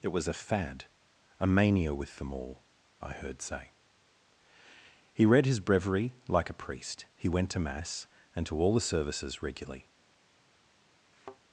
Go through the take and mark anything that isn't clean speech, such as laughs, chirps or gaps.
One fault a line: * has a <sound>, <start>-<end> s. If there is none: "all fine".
* has a thud, 11.1-11.4 s